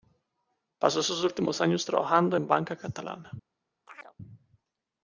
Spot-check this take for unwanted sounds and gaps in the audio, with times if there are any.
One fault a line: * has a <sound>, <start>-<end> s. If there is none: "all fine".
* has a chirp, 3.9-4.2 s